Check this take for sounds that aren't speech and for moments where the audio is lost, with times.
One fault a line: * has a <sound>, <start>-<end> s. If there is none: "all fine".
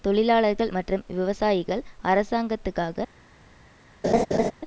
* has a laugh, 4.0-4.5 s